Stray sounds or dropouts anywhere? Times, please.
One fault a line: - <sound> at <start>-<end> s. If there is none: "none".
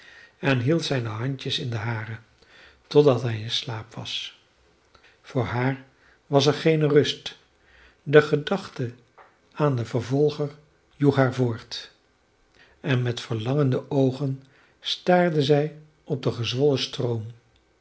none